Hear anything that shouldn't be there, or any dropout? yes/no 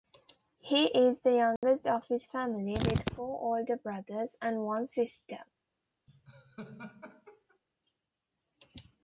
yes